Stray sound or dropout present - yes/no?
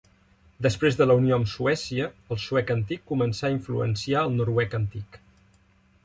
no